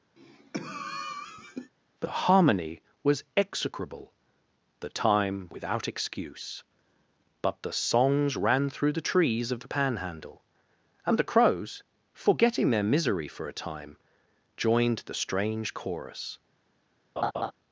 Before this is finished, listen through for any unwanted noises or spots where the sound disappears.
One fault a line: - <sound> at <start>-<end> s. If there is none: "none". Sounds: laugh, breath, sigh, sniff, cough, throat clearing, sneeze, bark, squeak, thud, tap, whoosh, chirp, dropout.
- cough at 0.2-1.7 s
- laugh at 17.2-17.5 s